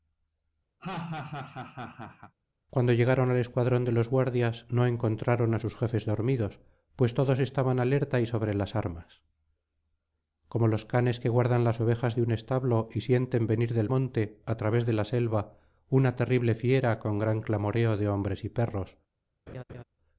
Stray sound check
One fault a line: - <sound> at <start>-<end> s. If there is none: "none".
- laugh at 0.8-2.3 s
- laugh at 19.5-19.8 s